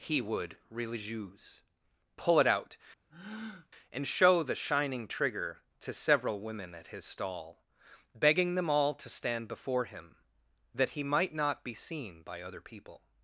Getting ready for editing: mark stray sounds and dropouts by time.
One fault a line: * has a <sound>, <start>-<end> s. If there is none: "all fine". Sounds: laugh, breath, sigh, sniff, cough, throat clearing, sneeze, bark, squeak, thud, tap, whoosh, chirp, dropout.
* has a breath, 3.1-3.7 s